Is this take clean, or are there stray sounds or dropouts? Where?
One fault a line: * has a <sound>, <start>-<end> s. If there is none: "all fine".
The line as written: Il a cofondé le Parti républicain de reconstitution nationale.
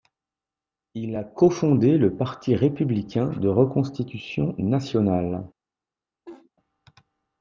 * has a laugh, 6.3-6.5 s